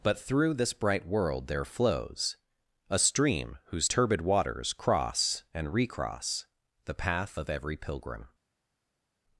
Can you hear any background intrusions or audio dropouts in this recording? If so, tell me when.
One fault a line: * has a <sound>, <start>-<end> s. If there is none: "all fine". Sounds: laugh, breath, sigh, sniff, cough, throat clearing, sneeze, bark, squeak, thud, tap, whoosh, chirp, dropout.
all fine